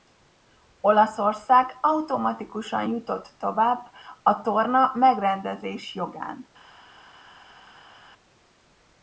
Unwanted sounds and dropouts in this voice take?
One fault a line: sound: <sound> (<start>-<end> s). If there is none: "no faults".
no faults